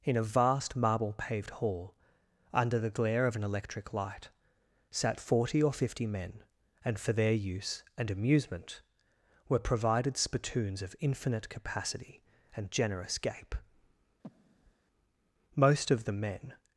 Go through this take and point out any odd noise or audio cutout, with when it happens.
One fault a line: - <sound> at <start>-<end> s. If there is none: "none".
- breath at 14.2-14.7 s